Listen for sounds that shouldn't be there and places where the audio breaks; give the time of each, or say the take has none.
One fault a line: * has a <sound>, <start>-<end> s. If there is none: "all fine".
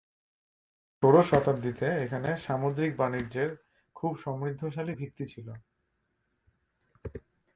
all fine